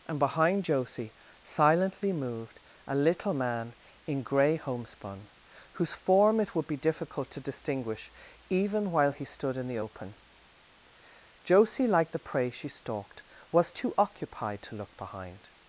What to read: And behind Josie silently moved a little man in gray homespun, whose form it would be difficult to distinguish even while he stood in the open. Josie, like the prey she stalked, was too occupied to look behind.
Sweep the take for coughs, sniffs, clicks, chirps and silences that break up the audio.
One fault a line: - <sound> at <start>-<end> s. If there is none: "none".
none